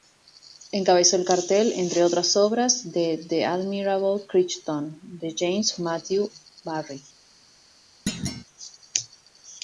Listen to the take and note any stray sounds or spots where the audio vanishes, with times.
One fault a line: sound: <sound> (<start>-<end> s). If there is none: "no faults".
sound: thud (8.1-8.4 s)